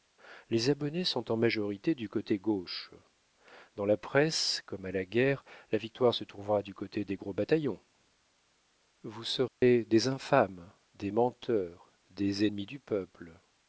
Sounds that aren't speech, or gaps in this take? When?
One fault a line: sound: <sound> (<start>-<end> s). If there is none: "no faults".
sound: dropout (9.5-9.6 s)